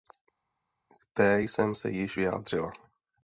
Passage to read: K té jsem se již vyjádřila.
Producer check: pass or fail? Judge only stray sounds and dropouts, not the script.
pass